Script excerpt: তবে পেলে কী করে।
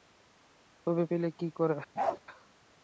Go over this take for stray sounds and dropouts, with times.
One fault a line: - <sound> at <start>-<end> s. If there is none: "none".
- bark at 2.0-2.2 s